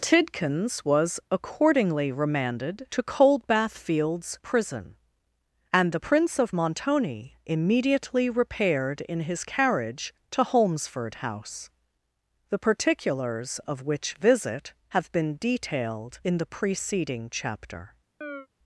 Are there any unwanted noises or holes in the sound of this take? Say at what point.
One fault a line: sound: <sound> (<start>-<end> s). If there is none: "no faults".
sound: chirp (18.2-18.5 s)